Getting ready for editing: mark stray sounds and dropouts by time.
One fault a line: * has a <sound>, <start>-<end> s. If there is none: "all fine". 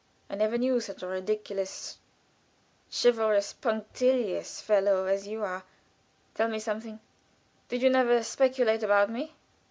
all fine